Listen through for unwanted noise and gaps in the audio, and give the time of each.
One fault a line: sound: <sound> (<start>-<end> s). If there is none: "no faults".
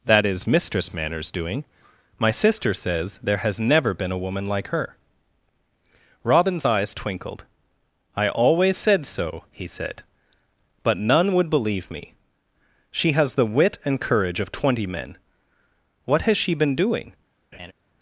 sound: laugh (17.5-17.7 s)